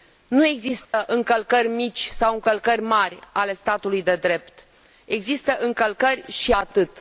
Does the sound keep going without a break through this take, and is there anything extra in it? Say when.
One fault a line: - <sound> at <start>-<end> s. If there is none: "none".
- dropout at 0.8-0.9 s